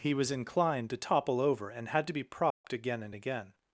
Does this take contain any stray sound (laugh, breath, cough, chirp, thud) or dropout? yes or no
yes